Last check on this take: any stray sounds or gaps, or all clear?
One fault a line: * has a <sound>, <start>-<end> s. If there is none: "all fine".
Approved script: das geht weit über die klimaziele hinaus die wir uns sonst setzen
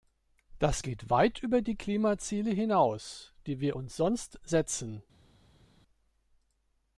all fine